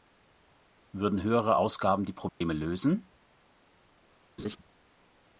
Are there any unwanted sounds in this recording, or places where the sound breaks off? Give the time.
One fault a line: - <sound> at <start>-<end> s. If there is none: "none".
- dropout at 2.3-2.4 s
- laugh at 4.4-4.6 s